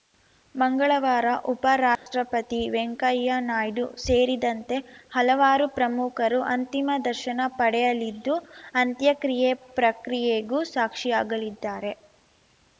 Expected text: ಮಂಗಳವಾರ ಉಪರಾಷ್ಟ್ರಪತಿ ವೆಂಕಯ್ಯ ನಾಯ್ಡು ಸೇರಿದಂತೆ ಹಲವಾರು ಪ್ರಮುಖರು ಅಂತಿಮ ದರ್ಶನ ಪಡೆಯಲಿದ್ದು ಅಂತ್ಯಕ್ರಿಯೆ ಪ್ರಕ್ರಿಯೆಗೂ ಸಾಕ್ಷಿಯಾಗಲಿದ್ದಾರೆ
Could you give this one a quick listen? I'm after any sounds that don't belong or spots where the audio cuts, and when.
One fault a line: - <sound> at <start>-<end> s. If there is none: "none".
- dropout at 2.0-2.1 s